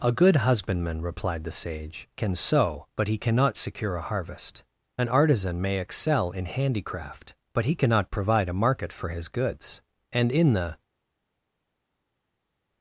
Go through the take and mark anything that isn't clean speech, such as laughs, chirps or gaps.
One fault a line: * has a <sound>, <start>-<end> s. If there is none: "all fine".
all fine